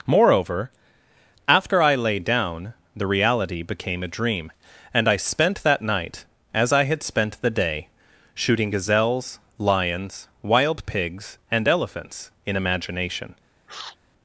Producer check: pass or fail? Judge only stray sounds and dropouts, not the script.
fail